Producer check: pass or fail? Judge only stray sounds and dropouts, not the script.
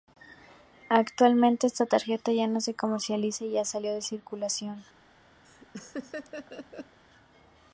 fail